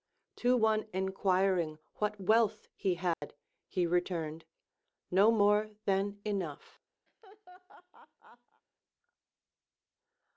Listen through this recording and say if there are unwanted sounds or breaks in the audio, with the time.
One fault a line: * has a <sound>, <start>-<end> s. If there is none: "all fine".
* has a dropout, 3.1-3.2 s
* has a laugh, 7.1-8.6 s